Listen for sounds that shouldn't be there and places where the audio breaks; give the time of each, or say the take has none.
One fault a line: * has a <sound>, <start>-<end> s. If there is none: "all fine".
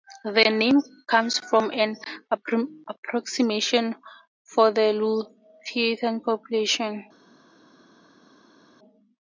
all fine